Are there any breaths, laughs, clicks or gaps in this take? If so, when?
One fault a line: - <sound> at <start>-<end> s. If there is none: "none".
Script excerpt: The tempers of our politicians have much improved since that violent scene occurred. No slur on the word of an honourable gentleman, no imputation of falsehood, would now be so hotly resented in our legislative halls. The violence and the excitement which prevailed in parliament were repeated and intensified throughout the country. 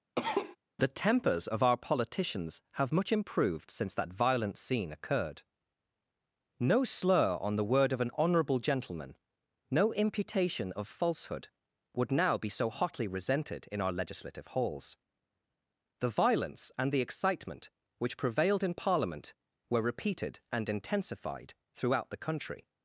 - cough at 0.2-0.6 s